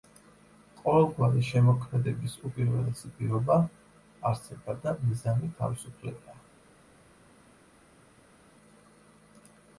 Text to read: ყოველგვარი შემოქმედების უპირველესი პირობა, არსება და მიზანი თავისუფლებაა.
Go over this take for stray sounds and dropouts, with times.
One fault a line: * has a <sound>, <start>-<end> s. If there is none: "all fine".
all fine